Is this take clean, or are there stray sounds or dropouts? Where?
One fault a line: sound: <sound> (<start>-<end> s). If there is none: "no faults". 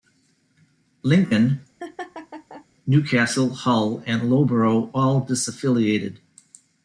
sound: laugh (1.8-2.7 s)